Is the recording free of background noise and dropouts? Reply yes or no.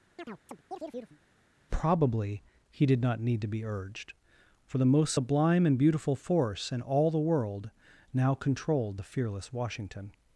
no